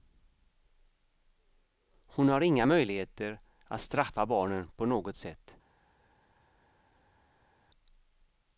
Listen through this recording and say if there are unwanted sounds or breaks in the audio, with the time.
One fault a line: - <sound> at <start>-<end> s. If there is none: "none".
none